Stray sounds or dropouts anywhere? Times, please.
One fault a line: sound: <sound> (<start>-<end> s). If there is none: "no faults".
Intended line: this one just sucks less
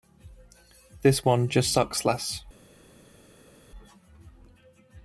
no faults